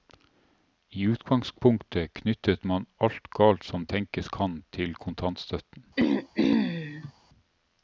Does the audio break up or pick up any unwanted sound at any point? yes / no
yes